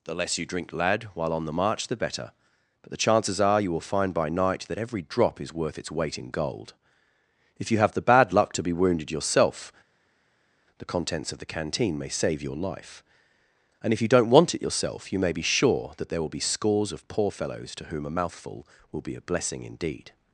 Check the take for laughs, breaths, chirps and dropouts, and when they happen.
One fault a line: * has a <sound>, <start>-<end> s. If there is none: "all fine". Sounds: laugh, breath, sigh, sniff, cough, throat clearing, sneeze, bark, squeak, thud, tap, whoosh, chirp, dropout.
all fine